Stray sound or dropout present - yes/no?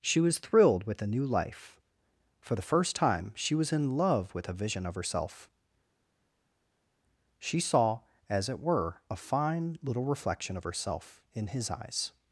no